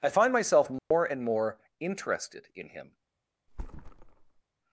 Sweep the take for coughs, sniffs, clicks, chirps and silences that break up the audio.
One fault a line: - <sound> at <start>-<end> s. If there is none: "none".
- dropout at 0.8-0.9 s
- thud at 3.5-4.4 s